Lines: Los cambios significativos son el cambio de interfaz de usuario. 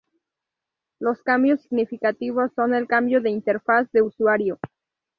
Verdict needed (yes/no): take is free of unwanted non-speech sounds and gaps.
yes